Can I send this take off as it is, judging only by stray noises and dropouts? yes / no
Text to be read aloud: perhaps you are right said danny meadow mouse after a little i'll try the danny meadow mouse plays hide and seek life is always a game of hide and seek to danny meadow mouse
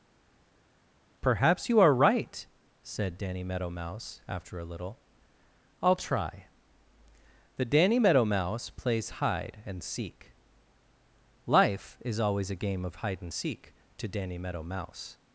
yes